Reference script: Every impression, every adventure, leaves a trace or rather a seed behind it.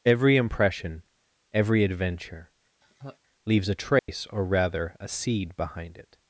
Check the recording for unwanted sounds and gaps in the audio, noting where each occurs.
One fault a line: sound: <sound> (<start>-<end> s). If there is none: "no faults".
sound: laugh (2.8-3.2 s)
sound: dropout (4.0-4.1 s)